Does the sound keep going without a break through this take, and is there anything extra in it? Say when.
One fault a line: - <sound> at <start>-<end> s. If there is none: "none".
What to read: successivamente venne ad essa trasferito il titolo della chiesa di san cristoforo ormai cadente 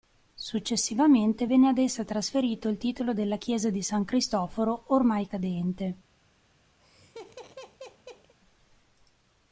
- laugh at 6.8-8.3 s